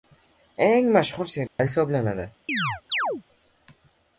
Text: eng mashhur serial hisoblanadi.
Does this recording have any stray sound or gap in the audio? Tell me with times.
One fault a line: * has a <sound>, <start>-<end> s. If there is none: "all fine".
* has a dropout, 1.5-1.6 s
* has a chirp, 2.5-3.2 s